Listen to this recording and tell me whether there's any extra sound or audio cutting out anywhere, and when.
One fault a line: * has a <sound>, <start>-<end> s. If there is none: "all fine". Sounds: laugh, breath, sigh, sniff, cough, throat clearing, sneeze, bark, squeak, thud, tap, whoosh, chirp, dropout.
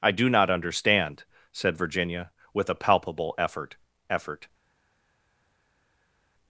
all fine